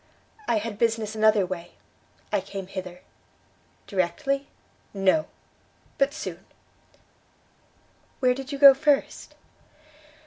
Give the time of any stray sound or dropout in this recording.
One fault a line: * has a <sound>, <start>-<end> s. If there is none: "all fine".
all fine